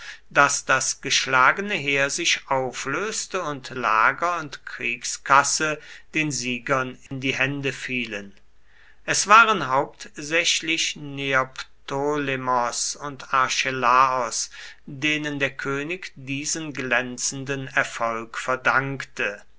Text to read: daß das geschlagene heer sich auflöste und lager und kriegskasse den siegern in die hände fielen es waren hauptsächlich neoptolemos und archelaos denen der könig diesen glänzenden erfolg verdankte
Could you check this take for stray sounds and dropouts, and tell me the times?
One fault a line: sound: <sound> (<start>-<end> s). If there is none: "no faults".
sound: dropout (7.1-7.1 s)